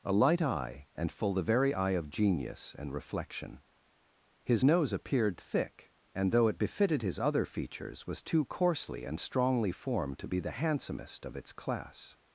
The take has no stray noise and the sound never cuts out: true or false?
true